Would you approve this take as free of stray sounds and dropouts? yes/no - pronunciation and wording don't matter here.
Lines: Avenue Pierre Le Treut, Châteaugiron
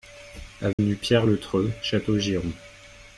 no